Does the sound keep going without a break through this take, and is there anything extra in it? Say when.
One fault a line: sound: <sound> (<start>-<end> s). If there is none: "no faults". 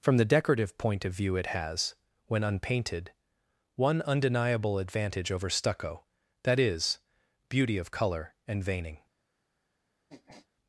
sound: sniff (10.1-10.5 s)